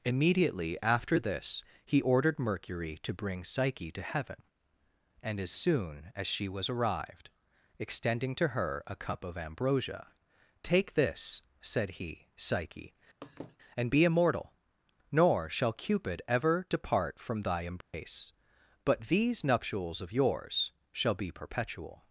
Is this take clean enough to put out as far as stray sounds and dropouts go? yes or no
no